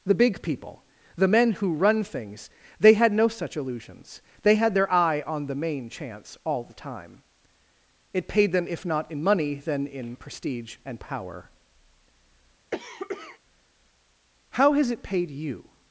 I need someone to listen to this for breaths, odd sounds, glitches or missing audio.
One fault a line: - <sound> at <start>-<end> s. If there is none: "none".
- cough at 12.7-13.4 s